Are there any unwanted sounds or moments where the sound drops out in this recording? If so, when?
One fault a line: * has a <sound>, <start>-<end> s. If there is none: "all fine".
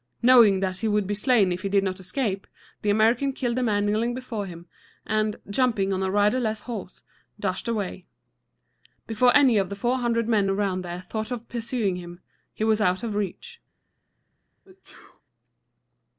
* has a sneeze, 14.6-15.2 s